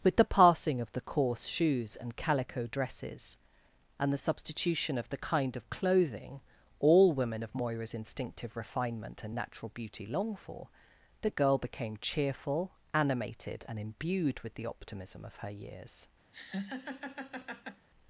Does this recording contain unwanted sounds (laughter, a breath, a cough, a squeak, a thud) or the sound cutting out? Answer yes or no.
yes